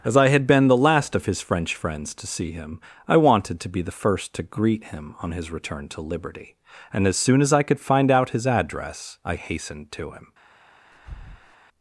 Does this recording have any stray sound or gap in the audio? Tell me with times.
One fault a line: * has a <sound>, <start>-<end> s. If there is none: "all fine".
* has a breath, 10.9-11.6 s